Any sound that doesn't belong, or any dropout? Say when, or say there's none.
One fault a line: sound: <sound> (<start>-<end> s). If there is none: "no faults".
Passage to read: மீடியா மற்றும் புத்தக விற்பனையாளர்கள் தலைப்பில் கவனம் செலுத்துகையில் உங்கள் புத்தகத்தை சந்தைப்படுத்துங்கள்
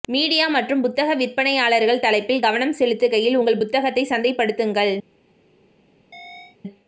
sound: chirp (6.1-6.6 s)